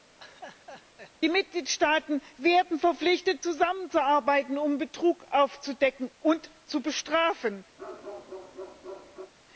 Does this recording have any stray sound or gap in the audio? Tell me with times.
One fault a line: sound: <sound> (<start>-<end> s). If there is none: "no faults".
sound: laugh (0.2-1.1 s)
sound: bark (7.8-9.3 s)